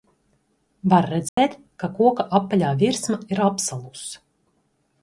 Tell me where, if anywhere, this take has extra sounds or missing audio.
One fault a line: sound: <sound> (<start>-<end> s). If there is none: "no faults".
sound: dropout (1.3-1.4 s)